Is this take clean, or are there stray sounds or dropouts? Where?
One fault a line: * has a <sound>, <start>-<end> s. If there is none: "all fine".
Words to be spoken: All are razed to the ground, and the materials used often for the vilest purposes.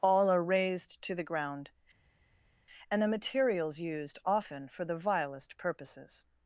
all fine